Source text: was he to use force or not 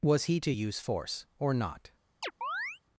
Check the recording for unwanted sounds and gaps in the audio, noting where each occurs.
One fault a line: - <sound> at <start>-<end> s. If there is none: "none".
- chirp at 2.2-2.8 s